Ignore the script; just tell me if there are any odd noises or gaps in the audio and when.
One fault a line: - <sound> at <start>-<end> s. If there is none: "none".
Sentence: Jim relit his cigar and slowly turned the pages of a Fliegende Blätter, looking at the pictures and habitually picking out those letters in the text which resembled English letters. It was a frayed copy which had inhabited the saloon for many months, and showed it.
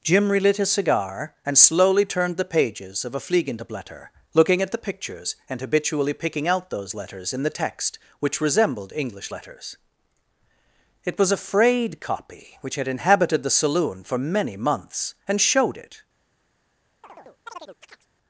- chirp at 17.0-18.1 s